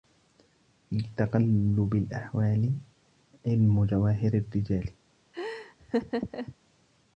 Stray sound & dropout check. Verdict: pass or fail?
fail